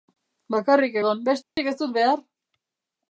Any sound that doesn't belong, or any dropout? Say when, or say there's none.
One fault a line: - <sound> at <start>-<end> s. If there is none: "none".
- dropout at 1.4-1.6 s